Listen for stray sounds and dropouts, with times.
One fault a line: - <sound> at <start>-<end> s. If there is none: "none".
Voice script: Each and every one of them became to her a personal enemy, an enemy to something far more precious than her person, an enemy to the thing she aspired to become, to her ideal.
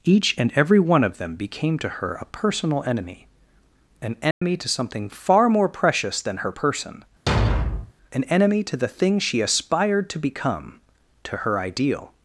- dropout at 4.3-4.4 s
- thud at 7.3-7.9 s